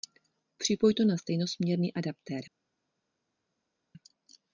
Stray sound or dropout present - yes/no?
no